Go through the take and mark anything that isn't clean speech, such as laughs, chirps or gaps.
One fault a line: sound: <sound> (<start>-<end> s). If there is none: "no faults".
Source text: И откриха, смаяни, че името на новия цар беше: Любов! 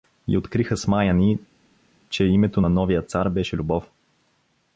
no faults